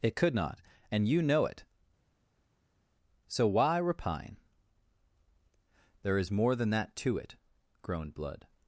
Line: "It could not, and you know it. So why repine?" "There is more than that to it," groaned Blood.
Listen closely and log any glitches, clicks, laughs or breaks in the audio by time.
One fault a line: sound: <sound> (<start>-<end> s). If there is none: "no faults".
no faults